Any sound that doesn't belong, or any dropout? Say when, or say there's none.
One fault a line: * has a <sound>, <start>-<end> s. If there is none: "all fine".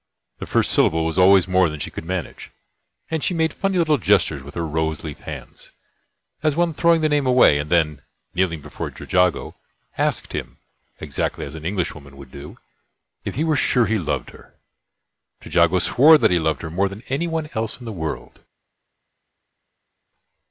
all fine